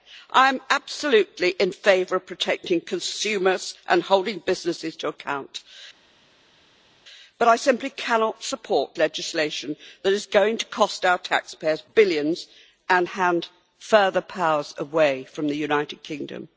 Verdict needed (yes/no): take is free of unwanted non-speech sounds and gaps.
yes